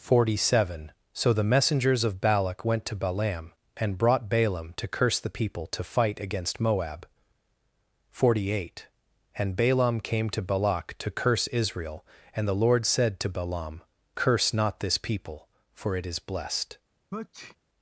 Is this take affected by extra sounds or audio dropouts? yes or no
yes